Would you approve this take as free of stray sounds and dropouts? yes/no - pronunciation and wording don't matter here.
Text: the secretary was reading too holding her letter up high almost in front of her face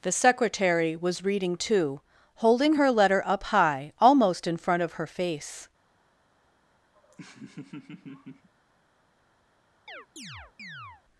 no